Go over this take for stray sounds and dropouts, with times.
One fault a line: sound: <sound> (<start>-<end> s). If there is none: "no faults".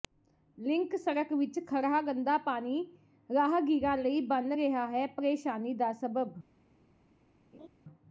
sound: laugh (7.5-7.7 s)